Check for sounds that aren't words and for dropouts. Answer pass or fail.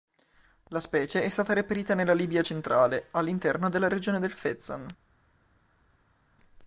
pass